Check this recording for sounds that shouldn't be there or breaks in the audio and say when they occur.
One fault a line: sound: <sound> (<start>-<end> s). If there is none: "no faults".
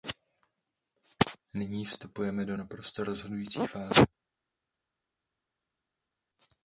no faults